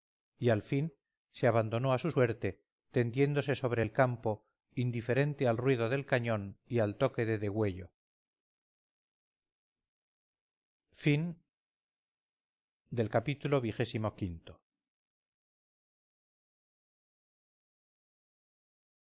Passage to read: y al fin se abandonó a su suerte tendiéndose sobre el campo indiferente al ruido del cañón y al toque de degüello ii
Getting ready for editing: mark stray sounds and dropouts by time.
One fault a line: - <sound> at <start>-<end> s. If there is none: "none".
none